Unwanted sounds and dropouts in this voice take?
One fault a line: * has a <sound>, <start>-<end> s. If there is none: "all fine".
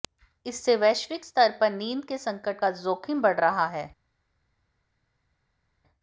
all fine